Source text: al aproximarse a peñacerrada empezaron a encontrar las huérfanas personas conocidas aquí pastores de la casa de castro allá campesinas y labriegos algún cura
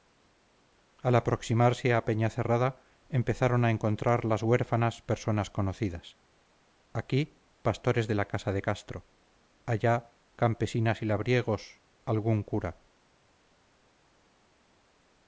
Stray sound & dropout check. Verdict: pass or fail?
pass